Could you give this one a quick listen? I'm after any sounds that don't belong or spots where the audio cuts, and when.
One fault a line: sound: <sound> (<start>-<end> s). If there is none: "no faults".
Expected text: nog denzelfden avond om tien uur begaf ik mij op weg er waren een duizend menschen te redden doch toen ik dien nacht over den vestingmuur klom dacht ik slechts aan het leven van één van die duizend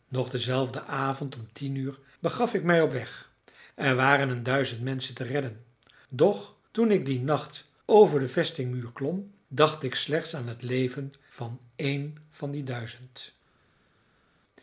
no faults